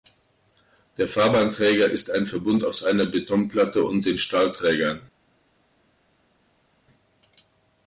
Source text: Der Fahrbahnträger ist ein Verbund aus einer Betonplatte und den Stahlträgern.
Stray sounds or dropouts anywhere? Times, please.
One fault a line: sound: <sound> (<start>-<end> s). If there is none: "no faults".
no faults